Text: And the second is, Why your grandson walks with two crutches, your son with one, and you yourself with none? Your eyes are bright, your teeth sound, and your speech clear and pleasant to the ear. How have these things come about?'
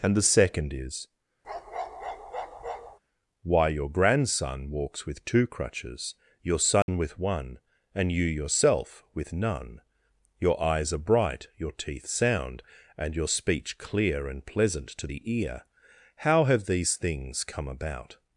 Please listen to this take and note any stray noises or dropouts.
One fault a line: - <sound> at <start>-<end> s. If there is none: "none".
- bark at 1.4-3.0 s
- dropout at 6.8-6.9 s